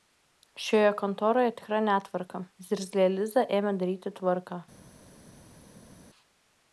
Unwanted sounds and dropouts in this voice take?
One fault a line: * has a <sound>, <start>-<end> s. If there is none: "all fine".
all fine